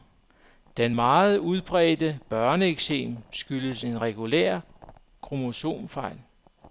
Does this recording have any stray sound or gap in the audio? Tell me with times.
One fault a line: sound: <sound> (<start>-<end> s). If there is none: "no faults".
no faults